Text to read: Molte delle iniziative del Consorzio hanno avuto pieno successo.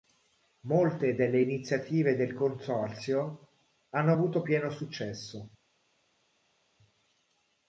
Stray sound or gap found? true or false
false